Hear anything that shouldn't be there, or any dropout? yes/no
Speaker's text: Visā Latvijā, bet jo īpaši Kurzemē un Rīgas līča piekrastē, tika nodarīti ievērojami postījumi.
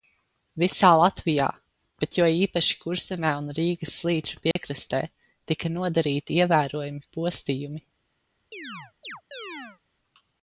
yes